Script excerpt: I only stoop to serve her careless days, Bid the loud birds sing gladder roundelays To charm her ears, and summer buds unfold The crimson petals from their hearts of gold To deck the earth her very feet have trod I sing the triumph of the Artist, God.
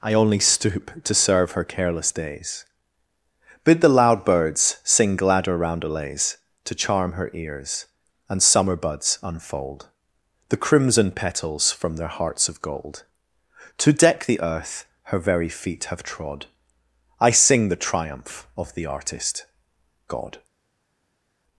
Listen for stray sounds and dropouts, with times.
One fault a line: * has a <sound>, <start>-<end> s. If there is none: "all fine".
all fine